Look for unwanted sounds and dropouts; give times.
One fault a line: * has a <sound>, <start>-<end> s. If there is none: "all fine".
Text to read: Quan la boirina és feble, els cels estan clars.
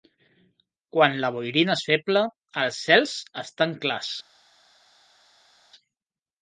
all fine